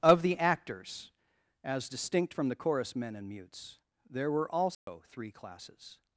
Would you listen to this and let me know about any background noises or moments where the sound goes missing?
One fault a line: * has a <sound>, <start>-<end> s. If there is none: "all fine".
* has a dropout, 4.7-4.9 s